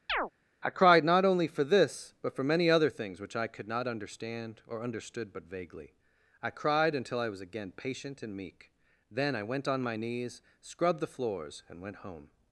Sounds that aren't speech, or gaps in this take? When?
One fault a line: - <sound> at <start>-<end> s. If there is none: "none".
- chirp at 0.1-0.3 s